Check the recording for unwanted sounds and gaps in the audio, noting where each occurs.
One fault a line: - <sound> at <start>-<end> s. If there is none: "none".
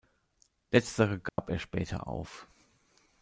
- dropout at 1.3-1.4 s